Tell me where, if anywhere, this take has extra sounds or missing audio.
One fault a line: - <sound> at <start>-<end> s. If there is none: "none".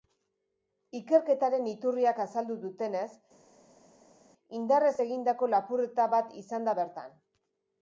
none